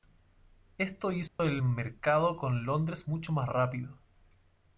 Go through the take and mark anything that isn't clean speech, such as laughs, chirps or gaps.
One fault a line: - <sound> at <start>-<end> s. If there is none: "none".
- dropout at 1.3-1.4 s